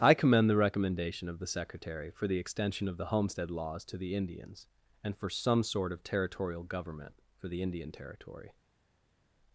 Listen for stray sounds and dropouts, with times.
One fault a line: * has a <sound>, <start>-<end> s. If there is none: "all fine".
all fine